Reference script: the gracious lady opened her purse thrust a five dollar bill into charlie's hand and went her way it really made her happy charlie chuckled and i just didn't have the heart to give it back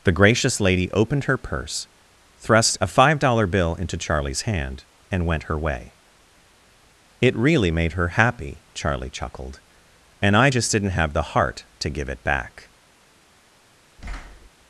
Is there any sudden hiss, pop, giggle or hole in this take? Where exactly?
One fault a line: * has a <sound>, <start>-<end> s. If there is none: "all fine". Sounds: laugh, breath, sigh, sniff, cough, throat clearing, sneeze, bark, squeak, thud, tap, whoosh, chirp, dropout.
* has a thud, 14.0-14.5 s